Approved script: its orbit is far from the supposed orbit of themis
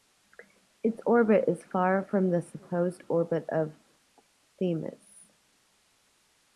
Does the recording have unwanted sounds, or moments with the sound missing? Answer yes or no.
no